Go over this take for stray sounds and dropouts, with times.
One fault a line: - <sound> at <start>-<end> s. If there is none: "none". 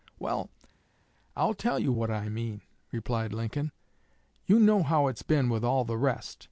none